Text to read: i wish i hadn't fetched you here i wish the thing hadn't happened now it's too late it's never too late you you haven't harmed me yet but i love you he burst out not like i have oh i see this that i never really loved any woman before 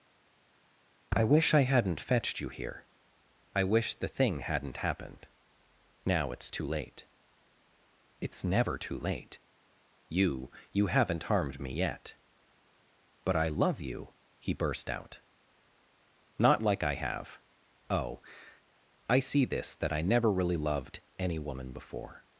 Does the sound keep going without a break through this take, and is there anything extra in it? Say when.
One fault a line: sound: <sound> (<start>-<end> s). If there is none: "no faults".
no faults